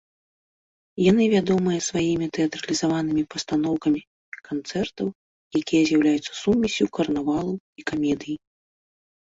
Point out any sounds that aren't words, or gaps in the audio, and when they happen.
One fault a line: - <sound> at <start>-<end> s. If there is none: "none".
none